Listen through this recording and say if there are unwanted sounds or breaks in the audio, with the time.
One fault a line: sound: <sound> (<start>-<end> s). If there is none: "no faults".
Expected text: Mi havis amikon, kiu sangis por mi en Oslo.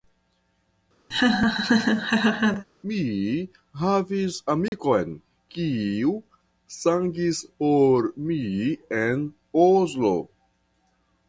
sound: laugh (1.1-2.7 s)
sound: dropout (4.7-4.7 s)